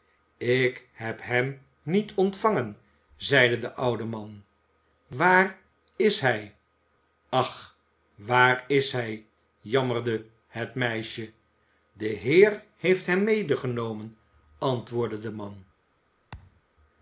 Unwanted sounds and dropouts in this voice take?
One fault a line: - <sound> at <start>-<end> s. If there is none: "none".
- thud at 16.3-16.6 s